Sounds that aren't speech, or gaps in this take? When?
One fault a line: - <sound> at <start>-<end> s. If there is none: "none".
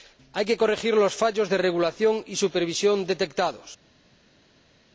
none